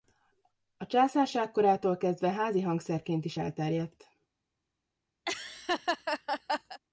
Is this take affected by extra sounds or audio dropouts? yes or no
yes